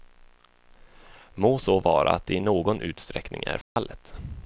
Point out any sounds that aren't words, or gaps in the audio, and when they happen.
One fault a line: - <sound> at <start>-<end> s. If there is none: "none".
- dropout at 3.6-3.8 s